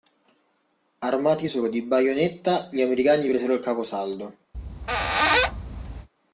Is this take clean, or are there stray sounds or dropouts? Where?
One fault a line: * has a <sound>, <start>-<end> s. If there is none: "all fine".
* has a squeak, 4.5-6.1 s